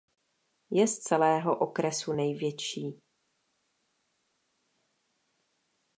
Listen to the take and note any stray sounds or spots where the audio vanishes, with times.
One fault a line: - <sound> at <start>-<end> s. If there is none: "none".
none